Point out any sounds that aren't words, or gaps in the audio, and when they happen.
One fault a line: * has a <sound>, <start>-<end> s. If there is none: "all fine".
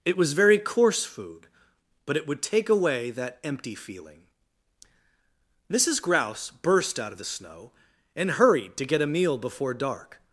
all fine